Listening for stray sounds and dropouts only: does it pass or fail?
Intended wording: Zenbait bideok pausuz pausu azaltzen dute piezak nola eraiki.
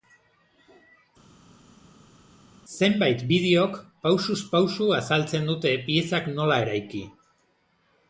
pass